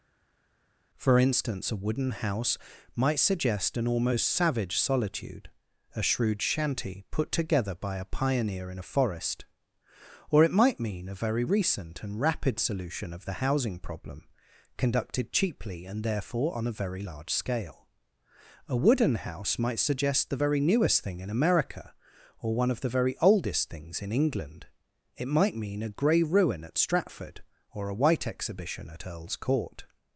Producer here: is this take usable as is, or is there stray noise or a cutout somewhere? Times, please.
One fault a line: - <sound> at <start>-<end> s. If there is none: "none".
none